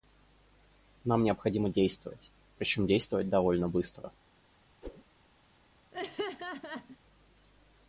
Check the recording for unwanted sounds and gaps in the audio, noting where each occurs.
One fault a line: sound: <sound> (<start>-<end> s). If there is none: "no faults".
sound: whoosh (4.8-5.0 s)
sound: laugh (5.9-7.0 s)